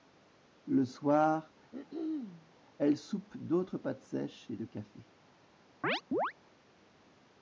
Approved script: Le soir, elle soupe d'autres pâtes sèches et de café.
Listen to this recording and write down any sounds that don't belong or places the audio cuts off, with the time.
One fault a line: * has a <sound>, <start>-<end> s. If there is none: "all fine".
* has a throat clearing, 1.7-2.6 s
* has a chirp, 5.8-6.3 s